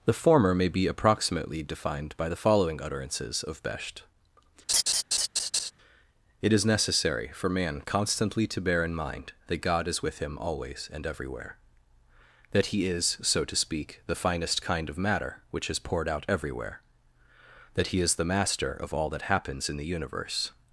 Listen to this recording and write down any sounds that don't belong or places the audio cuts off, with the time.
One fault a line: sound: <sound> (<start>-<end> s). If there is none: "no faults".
sound: laugh (4.7-5.7 s)